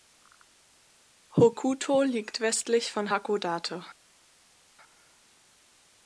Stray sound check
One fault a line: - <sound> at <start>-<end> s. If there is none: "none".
none